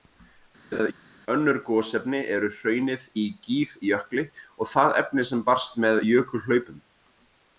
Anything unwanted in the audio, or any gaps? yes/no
yes